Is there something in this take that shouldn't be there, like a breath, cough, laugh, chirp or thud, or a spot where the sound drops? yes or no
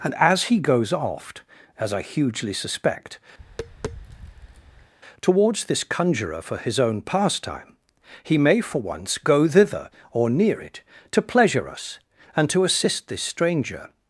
yes